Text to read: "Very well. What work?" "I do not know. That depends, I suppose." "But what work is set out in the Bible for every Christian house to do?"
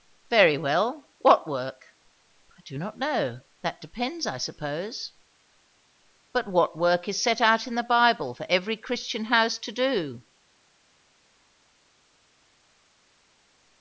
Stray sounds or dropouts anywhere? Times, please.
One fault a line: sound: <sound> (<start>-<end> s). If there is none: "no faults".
no faults